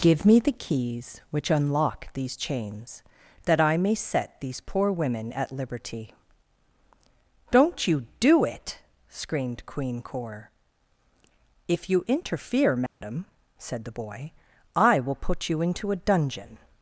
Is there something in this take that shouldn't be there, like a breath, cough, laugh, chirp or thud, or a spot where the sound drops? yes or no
yes